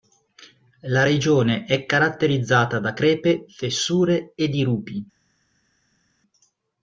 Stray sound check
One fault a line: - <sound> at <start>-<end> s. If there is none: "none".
none